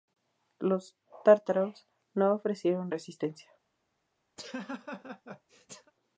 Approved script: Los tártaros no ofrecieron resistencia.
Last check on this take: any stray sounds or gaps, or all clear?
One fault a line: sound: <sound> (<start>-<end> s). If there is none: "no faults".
sound: laugh (4.4-5.9 s)